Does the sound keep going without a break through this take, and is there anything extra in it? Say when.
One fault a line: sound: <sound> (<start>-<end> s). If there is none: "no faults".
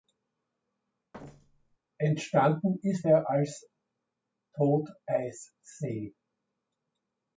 sound: thud (1.1-1.8 s)